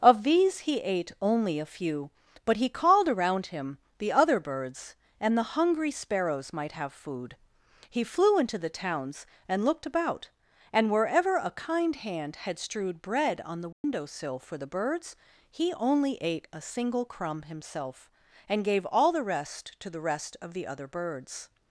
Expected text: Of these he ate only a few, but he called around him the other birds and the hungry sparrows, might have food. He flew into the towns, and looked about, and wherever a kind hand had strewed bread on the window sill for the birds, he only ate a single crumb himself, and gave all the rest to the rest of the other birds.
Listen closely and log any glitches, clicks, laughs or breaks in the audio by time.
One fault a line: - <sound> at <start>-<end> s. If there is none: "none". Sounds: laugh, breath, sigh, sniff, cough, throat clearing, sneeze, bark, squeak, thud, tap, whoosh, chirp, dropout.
- dropout at 13.7-13.8 s